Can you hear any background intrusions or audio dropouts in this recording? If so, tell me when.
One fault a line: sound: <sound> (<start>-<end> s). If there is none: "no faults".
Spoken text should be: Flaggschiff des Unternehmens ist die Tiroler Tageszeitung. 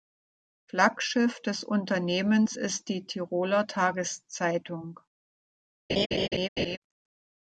sound: laugh (5.9-6.8 s)